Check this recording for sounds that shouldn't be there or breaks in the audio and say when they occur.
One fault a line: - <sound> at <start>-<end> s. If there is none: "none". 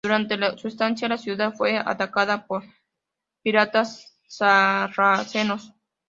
none